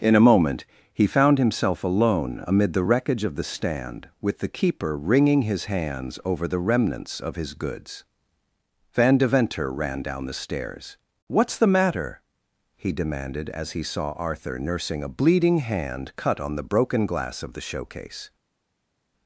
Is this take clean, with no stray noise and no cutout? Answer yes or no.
yes